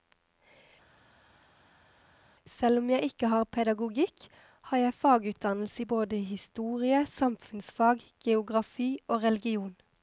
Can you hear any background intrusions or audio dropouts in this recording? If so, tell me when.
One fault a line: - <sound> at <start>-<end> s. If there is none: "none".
none